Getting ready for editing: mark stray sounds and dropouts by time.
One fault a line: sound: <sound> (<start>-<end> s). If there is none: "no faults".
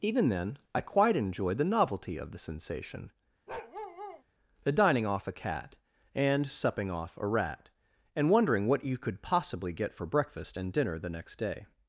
sound: bark (3.5-4.2 s)